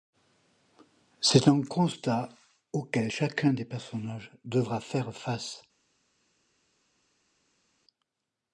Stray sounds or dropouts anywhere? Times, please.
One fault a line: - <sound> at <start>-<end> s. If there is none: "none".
none